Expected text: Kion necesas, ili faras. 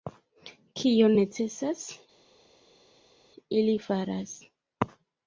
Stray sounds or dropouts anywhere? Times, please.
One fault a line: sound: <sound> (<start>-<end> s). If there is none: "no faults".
no faults